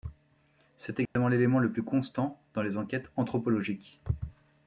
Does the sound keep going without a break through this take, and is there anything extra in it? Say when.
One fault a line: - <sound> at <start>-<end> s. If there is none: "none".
- dropout at 1.1-1.2 s